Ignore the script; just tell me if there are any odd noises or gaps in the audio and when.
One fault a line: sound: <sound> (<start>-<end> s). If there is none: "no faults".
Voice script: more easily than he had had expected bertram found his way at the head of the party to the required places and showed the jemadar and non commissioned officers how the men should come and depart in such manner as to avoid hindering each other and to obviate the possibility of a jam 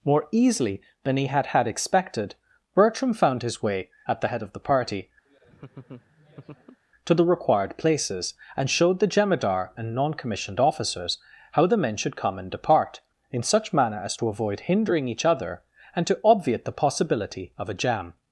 sound: laugh (5.3-6.8 s)